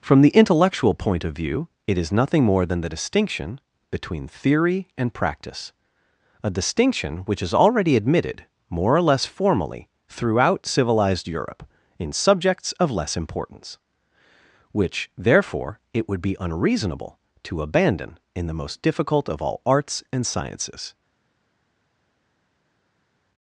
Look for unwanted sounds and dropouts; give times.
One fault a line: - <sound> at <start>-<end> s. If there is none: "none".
none